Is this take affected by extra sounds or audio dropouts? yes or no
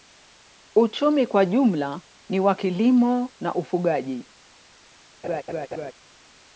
yes